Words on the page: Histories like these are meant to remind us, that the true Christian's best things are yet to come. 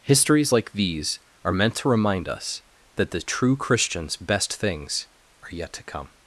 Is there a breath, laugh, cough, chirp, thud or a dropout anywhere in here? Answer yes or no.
no